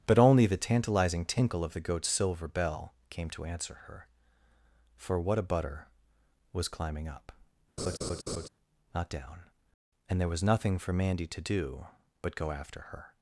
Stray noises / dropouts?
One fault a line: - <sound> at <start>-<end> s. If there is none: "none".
- laugh at 7.8-8.5 s